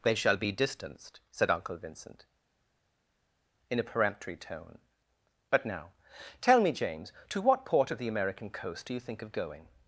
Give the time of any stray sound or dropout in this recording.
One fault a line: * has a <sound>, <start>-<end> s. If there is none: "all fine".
all fine